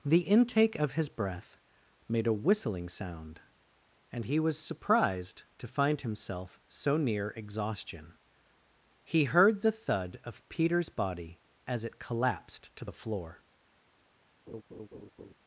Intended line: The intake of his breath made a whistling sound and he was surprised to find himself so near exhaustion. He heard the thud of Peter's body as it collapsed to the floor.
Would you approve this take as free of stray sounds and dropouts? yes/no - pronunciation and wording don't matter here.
no